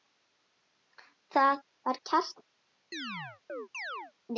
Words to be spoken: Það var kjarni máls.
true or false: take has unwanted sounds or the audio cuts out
true